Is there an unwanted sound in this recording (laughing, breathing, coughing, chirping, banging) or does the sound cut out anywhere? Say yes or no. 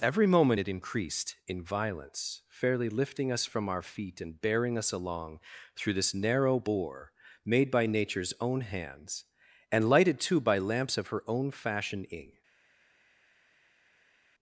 no